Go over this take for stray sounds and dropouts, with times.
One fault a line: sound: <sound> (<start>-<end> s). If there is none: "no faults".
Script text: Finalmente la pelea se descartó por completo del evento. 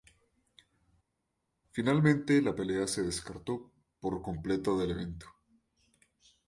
no faults